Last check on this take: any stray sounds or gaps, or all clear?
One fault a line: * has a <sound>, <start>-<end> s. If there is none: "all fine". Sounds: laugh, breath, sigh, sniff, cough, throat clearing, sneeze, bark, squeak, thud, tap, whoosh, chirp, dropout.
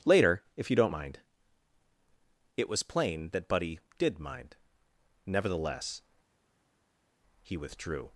all fine